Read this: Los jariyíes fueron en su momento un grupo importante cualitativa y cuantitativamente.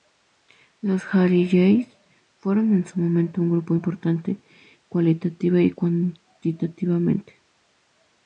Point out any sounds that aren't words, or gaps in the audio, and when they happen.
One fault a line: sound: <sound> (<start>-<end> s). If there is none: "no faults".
no faults